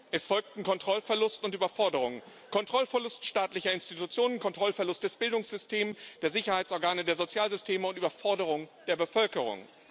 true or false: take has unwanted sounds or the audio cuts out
false